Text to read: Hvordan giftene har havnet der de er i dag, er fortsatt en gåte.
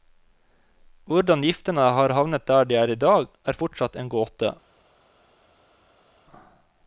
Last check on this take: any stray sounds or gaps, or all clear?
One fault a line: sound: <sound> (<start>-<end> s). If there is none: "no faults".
no faults